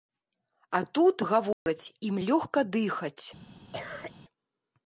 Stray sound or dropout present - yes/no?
yes